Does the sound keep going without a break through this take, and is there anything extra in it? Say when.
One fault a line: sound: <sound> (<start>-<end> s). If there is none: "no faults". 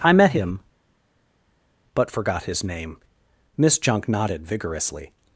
no faults